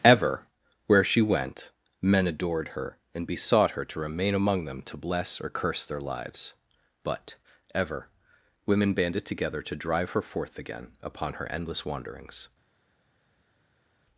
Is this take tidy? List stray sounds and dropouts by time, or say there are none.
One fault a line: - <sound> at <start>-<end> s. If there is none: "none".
none